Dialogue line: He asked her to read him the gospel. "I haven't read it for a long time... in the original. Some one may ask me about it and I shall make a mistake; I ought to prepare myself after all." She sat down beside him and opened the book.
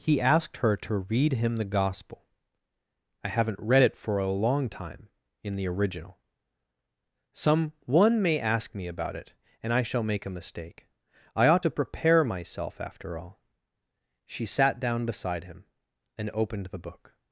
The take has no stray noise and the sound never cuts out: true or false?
true